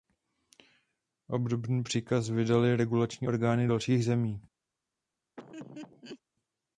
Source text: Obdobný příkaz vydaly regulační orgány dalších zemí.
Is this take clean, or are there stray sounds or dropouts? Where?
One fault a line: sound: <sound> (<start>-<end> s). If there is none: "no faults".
sound: laugh (5.4-6.2 s)